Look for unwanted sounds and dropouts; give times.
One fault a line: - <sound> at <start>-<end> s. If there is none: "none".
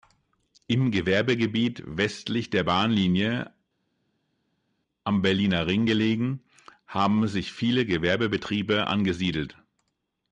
none